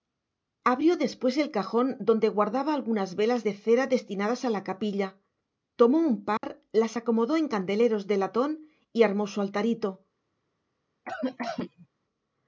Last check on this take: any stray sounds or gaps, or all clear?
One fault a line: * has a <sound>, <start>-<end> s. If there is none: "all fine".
* has a dropout, 6.4-6.4 s
* has a cough, 11.1-11.9 s